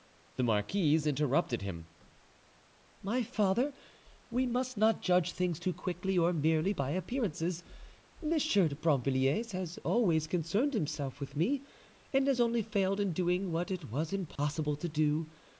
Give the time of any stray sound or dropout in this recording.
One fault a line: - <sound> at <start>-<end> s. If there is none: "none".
- dropout at 14.4-14.4 s